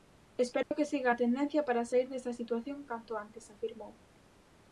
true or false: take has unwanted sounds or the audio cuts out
true